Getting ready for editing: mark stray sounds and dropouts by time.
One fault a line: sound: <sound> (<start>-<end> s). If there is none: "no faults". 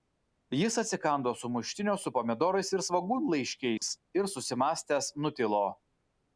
sound: dropout (3.8-3.8 s)